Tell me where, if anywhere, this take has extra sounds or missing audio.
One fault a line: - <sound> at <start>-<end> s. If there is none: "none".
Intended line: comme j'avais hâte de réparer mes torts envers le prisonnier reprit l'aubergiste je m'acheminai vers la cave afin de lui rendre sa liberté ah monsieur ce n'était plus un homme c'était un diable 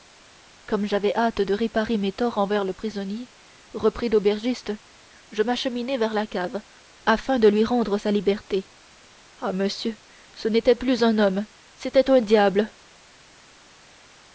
none